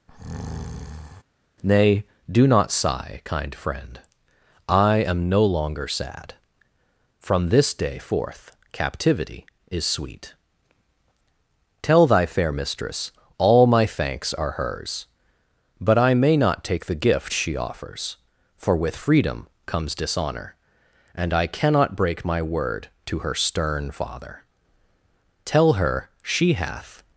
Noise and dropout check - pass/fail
fail